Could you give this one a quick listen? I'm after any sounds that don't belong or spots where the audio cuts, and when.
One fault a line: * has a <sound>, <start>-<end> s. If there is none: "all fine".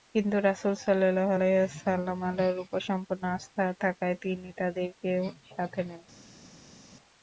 all fine